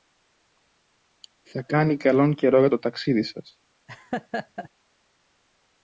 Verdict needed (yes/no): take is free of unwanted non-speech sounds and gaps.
no